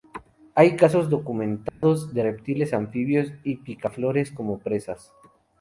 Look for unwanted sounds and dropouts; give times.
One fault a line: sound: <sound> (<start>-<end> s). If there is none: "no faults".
sound: dropout (1.7-1.8 s)